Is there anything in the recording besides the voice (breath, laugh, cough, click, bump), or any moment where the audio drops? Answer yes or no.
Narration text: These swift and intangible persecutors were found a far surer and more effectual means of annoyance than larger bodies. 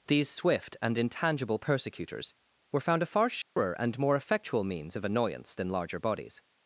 yes